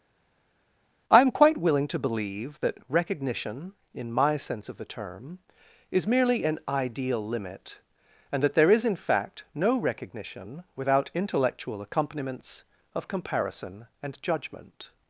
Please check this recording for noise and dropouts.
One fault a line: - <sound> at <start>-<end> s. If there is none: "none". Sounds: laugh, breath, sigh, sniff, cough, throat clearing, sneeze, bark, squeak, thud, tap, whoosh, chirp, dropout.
none